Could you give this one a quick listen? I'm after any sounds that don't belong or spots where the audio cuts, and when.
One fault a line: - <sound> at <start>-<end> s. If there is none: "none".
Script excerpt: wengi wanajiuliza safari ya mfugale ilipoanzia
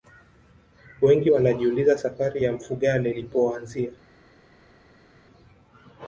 none